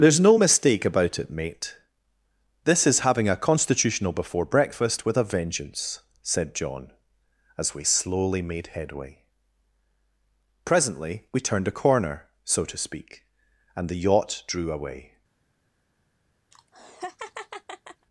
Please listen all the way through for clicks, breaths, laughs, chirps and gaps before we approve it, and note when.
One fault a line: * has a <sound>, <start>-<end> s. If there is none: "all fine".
* has a laugh, 16.5-18.1 s